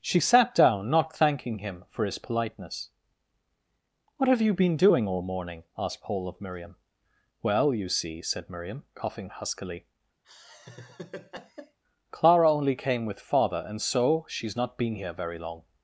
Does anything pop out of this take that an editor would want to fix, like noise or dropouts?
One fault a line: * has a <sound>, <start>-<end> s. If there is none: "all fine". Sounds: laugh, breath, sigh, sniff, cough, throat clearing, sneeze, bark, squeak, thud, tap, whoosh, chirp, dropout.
* has a laugh, 10.2-11.8 s